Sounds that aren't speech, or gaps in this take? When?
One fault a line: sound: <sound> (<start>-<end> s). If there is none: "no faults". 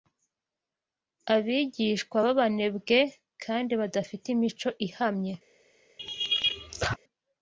sound: laugh (6.0-7.0 s)